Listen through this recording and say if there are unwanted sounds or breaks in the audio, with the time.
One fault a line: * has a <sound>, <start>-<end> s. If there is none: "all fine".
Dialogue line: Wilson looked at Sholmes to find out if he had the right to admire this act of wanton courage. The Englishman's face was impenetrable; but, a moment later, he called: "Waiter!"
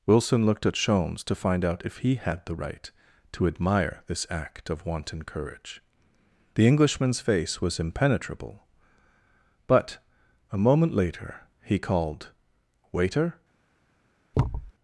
* has a thud, 14.3-14.7 s